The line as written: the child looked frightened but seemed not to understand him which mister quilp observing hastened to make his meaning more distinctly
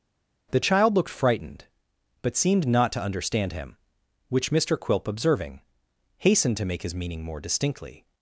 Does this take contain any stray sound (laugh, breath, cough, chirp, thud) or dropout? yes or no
no